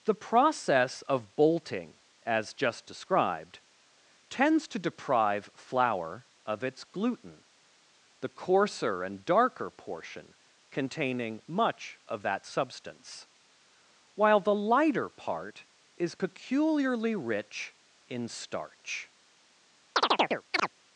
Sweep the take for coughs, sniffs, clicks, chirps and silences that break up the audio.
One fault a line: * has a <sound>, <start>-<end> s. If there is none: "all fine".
* has a chirp, 20.0-20.7 s